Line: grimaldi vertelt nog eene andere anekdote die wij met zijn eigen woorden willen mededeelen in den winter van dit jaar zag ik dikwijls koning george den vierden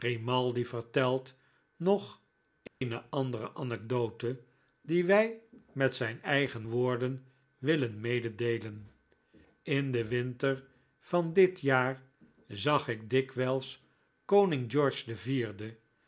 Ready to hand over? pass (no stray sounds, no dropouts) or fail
fail